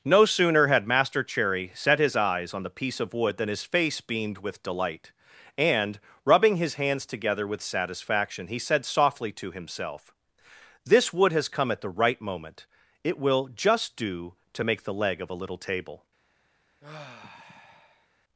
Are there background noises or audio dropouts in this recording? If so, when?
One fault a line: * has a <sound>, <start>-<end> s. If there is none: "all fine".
* has a sigh, 16.8-18.1 s